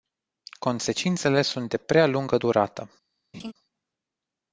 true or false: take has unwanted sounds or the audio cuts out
true